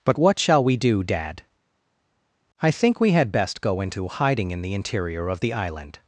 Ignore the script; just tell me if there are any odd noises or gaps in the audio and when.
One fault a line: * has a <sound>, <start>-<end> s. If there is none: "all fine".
all fine